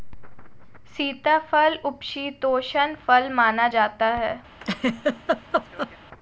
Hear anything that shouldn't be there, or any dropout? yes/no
yes